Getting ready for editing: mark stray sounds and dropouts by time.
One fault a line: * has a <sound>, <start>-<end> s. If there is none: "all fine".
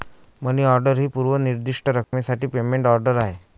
* has a dropout, 2.0-2.1 s